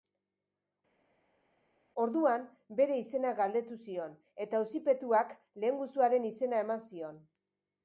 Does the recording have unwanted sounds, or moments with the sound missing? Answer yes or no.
no